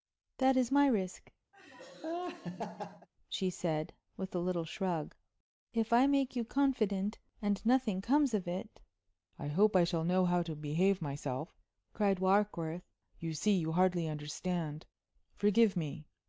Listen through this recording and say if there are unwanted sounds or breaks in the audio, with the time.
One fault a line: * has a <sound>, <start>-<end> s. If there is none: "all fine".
* has a laugh, 1.5-3.1 s